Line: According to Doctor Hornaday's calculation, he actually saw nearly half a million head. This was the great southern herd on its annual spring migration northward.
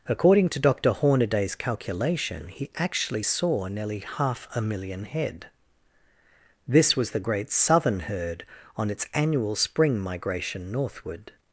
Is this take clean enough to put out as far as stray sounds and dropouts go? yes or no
yes